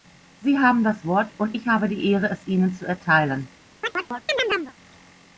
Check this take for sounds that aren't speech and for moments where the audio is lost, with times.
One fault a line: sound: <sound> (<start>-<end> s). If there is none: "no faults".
sound: chirp (3.8-4.7 s)